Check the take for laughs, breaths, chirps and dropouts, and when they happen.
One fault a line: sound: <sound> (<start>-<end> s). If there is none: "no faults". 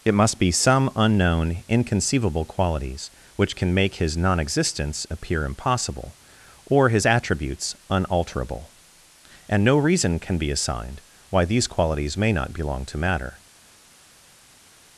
no faults